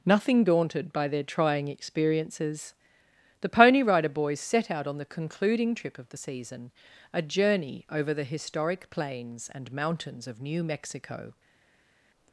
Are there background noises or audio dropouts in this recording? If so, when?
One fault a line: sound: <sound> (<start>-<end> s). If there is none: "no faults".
no faults